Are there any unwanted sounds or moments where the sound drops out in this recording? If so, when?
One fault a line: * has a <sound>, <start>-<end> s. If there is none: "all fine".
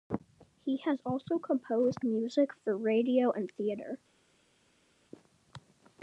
all fine